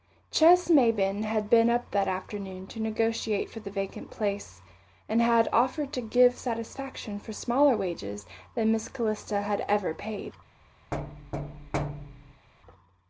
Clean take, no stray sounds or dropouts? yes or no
no